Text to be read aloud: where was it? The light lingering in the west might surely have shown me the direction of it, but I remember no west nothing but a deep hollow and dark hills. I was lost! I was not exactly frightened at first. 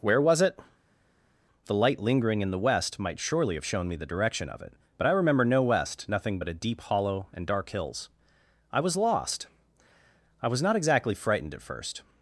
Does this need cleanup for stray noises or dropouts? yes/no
no